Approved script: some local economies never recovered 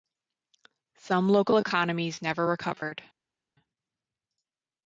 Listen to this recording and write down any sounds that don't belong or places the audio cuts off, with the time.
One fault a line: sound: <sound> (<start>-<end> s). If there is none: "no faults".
no faults